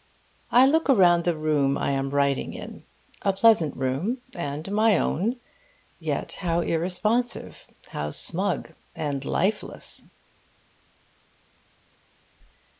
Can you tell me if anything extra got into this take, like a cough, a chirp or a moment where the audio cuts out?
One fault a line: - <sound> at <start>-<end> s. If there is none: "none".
none